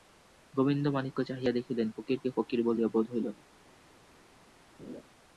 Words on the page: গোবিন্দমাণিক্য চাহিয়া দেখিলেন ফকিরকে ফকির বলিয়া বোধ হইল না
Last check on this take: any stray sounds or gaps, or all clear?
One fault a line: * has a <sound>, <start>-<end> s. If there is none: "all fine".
* has a laugh, 4.8-5.0 s